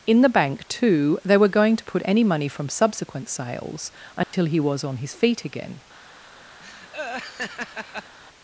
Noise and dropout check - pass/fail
fail